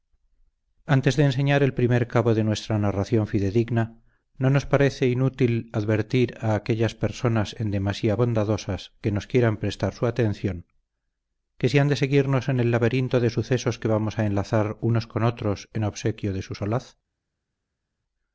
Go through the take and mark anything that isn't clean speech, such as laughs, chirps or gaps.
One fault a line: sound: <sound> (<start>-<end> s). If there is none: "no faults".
no faults